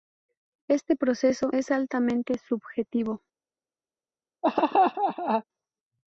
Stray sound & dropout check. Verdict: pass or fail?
fail